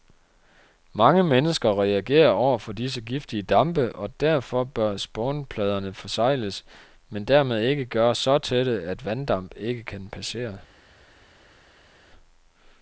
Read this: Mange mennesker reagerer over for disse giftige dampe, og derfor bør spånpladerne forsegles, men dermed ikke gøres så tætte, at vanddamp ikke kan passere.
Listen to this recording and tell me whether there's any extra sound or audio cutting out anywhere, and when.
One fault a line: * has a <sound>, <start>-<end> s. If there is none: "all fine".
all fine